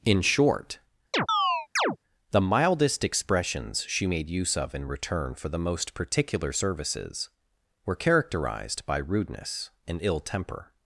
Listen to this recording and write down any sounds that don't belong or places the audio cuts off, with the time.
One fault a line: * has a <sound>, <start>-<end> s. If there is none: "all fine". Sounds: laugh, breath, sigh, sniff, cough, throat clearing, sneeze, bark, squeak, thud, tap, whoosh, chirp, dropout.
* has a chirp, 1.1-2.0 s